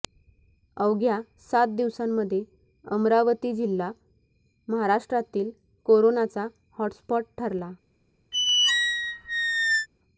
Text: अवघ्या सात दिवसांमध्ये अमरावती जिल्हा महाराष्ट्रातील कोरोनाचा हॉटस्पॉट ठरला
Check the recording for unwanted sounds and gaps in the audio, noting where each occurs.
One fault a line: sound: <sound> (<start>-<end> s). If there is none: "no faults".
sound: squeak (8.3-9.9 s)